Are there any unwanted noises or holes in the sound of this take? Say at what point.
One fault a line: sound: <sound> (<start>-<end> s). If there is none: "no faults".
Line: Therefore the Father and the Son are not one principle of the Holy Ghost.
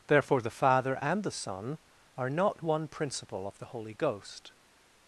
no faults